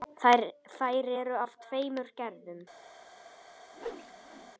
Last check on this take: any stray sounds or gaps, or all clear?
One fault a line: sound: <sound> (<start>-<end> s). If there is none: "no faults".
sound: whoosh (3.7-4.5 s)